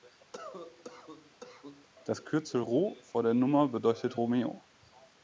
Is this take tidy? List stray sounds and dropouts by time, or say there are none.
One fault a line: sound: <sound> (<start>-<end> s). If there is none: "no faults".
sound: cough (0.3-1.9 s)